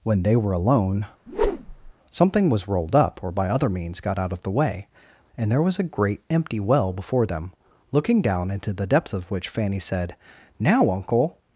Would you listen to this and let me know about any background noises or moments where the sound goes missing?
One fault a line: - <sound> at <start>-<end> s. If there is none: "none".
- whoosh at 1.3-1.9 s